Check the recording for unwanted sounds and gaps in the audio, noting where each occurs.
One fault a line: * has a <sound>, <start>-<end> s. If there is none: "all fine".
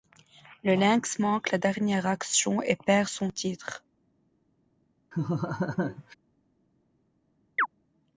* has a laugh, 5.1-6.1 s
* has a chirp, 7.6-7.7 s